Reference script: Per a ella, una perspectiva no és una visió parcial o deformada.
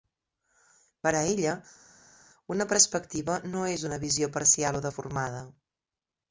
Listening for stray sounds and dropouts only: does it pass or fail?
pass